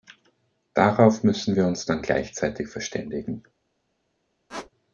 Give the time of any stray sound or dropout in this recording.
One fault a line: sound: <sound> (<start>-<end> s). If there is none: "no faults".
sound: squeak (4.5-4.7 s)